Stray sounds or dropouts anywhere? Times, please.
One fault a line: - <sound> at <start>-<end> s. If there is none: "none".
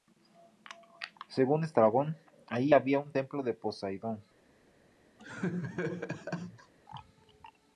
- laugh at 5.2-6.7 s